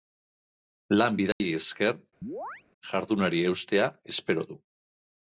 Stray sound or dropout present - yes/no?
yes